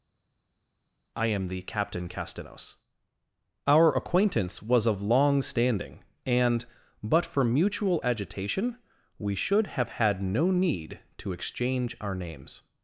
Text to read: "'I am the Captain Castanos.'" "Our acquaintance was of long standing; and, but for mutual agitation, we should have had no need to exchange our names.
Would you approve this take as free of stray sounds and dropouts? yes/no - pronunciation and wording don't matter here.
yes